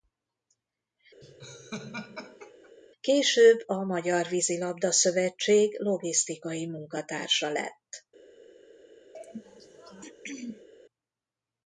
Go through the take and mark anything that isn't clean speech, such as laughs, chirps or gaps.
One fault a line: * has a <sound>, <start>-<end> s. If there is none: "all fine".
* has a laugh, 1.2-2.7 s
* has a throat clearing, 9.1-10.7 s